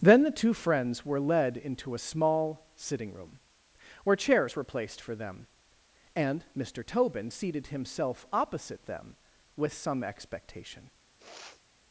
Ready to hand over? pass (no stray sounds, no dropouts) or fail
fail